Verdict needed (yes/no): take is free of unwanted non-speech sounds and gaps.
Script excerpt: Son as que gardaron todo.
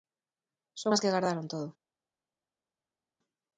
yes